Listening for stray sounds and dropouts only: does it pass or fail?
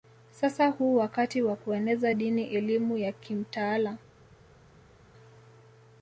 pass